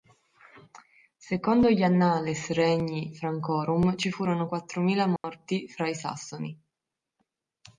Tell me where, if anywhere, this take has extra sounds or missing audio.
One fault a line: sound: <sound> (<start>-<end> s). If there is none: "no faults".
sound: dropout (5.2-5.2 s)